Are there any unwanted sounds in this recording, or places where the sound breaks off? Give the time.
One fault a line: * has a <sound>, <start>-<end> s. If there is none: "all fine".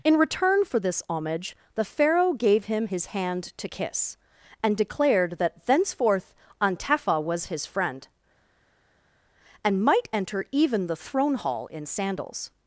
all fine